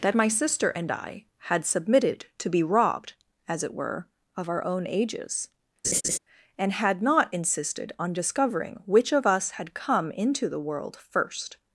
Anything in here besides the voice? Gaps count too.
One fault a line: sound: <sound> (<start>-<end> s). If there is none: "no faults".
sound: laugh (5.8-6.2 s)